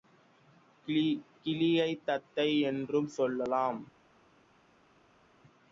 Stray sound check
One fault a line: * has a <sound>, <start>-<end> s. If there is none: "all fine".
all fine